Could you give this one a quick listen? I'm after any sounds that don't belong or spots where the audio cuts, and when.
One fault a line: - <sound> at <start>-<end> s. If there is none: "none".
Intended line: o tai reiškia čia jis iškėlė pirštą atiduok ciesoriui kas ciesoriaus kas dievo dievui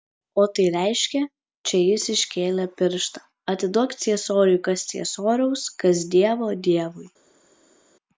none